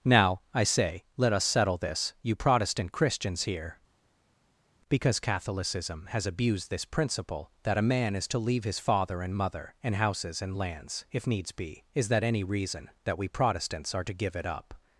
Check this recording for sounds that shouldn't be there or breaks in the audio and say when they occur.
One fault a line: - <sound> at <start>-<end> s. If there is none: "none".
none